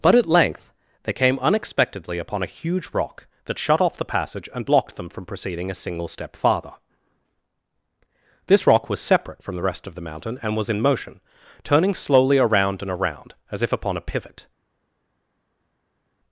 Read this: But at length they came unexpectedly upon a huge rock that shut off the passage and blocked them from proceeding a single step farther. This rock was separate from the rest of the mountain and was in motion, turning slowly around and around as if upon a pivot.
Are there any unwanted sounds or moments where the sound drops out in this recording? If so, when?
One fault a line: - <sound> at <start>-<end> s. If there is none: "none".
none